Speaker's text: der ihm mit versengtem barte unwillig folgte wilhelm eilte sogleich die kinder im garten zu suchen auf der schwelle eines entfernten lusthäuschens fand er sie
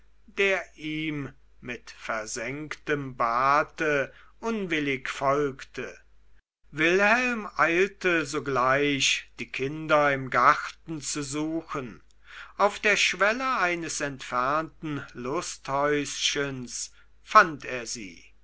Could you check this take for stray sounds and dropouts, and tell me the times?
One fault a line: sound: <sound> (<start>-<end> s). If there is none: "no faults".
no faults